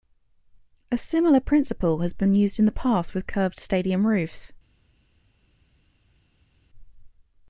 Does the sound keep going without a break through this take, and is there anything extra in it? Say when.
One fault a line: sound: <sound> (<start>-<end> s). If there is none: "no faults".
no faults